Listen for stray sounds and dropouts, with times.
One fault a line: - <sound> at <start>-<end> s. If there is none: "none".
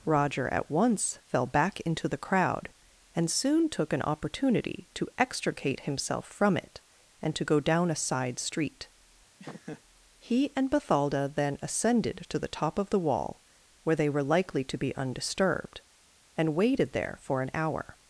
- laugh at 9.4-9.8 s